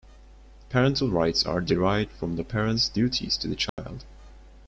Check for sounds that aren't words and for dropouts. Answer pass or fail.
fail